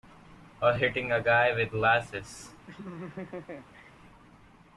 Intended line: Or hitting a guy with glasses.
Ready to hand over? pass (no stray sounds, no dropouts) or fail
fail